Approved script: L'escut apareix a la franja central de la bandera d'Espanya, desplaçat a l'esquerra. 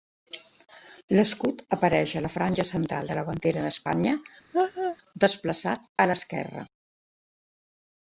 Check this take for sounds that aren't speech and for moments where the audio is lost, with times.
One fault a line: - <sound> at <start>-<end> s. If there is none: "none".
- laugh at 4.5-5.0 s